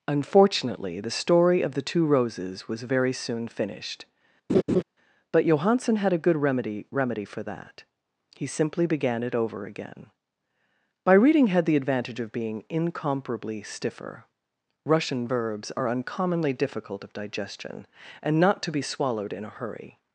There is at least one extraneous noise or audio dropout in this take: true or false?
true